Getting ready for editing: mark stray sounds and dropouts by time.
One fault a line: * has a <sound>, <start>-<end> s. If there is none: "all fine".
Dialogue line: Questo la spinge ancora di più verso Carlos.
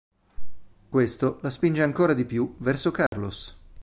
* has a dropout, 3.1-3.1 s